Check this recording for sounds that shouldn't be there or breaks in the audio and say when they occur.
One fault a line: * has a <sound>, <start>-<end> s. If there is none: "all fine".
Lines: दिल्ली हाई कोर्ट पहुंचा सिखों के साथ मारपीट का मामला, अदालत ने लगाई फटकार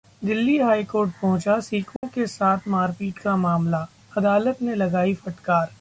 * has a dropout, 2.0-2.0 s